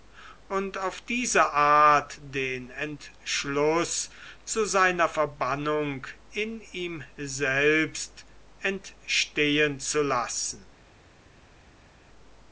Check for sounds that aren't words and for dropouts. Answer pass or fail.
pass